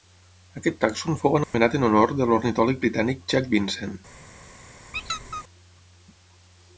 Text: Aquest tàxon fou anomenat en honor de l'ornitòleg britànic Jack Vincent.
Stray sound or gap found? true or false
true